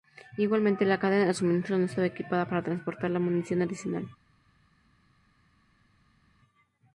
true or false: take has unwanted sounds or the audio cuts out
false